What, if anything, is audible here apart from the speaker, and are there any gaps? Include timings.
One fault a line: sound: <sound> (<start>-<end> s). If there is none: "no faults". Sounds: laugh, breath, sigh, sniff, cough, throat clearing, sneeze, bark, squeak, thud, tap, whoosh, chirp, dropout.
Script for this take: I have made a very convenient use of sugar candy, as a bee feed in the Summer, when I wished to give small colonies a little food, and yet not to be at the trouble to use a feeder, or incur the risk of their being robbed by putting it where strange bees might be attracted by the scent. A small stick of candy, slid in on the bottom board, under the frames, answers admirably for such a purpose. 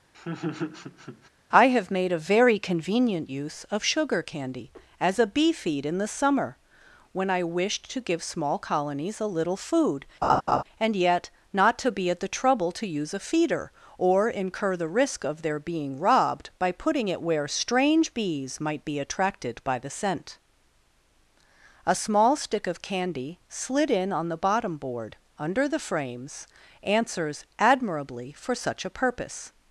sound: laugh (0.1-1.3 s)
sound: laugh (10.2-10.6 s)